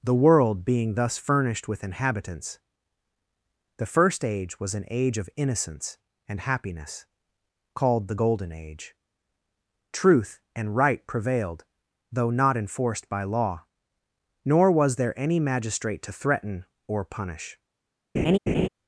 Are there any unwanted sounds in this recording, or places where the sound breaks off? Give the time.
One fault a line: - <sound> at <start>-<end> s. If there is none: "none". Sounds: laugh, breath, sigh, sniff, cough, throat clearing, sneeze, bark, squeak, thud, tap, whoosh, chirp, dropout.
- laugh at 18.1-18.7 s